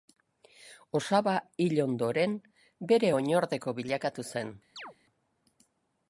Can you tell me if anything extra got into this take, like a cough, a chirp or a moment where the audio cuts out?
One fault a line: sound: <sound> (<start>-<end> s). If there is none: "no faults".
sound: chirp (4.8-4.9 s)